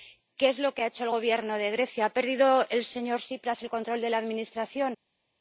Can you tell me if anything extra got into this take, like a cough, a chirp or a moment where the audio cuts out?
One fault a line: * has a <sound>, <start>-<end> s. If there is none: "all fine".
all fine